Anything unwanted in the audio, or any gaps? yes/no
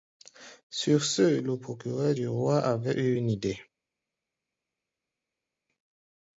no